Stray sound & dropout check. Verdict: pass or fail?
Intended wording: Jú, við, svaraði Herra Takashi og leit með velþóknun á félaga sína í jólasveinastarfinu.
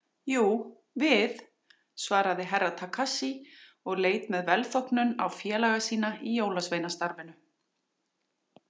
pass